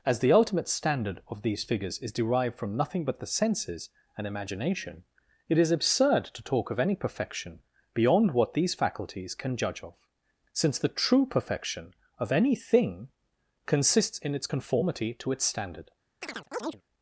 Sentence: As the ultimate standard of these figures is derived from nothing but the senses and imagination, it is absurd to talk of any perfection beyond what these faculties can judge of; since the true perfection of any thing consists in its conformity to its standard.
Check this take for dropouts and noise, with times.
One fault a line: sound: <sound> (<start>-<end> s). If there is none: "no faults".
sound: chirp (16.2-16.8 s)